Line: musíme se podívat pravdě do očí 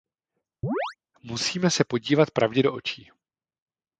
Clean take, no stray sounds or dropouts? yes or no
no